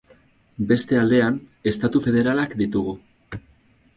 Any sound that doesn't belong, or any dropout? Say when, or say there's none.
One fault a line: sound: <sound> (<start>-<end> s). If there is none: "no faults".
no faults